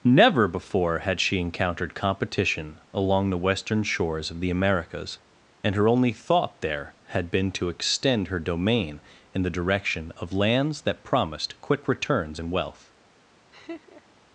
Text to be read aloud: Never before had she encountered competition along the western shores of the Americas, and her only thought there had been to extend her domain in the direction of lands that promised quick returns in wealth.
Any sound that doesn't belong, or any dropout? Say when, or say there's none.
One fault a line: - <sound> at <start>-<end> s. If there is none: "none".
- laugh at 13.5-14.2 s